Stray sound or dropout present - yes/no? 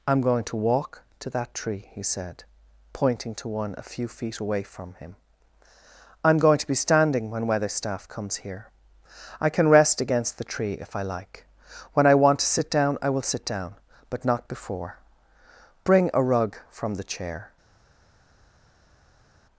no